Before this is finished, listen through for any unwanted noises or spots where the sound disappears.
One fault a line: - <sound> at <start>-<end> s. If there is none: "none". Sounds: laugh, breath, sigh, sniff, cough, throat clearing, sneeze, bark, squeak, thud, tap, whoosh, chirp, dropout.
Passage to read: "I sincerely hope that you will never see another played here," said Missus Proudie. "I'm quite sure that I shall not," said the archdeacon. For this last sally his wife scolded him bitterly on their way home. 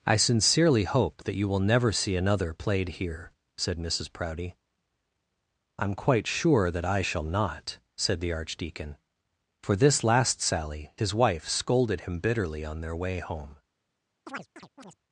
- chirp at 14.3-15.0 s